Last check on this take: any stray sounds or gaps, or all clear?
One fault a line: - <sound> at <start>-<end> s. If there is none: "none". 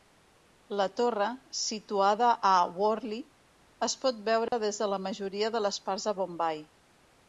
- dropout at 4.5-4.5 s